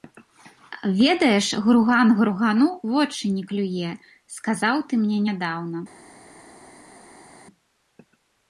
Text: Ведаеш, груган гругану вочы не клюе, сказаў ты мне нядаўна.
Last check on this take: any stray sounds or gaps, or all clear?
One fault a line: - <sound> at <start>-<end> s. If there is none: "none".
none